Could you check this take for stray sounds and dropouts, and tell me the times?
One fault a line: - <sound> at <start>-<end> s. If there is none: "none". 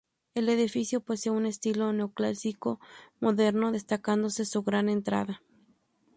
none